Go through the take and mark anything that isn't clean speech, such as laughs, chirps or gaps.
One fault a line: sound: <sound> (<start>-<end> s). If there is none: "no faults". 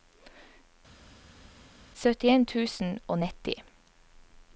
no faults